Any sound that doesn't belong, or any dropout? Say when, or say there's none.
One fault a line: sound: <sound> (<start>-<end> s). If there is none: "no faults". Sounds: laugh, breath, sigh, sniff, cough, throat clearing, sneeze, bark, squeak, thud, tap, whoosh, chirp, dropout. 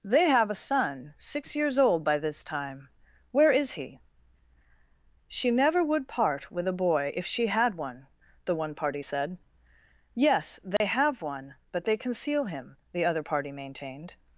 sound: dropout (10.8-10.8 s)